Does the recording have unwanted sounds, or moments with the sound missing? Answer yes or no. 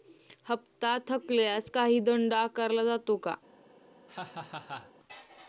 yes